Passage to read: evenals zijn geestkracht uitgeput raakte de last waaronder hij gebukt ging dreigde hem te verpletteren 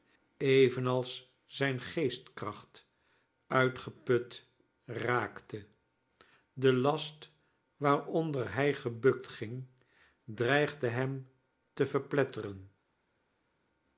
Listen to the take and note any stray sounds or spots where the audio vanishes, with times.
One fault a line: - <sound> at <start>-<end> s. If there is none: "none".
none